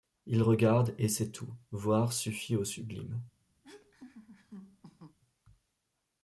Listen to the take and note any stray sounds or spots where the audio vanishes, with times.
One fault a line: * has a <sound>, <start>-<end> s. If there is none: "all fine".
* has a laugh, 3.6-5.2 s